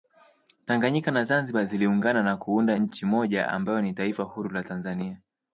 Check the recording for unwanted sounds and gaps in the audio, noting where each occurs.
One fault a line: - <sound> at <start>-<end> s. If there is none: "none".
none